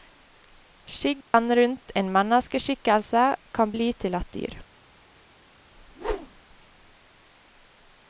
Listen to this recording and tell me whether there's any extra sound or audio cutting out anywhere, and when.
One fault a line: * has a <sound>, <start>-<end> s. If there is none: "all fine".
* has a dropout, 1.2-1.3 s
* has a whoosh, 5.8-6.4 s